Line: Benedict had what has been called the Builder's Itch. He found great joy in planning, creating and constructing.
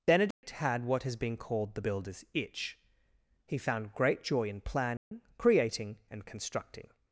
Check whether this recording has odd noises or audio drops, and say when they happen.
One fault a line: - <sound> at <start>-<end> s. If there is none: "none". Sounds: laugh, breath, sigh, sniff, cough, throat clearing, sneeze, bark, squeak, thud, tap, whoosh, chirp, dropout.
- dropout at 0.3-0.4 s
- dropout at 5.0-5.1 s